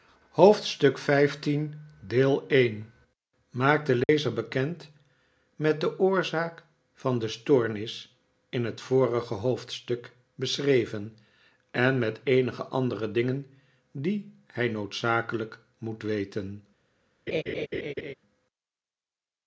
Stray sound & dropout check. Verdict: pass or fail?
fail